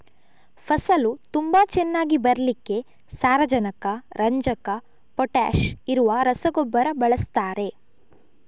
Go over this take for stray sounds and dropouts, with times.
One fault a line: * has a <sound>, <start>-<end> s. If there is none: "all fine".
all fine